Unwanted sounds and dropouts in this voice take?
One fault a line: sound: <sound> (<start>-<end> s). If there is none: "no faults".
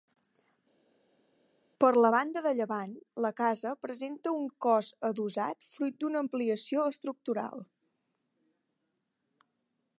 no faults